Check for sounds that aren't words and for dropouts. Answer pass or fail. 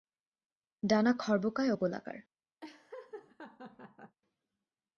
fail